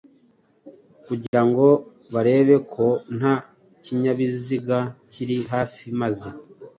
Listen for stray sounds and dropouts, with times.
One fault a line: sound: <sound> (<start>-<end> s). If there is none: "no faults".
sound: dropout (1.3-1.3 s)